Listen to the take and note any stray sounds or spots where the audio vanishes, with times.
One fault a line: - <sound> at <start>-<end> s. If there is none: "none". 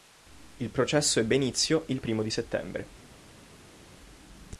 none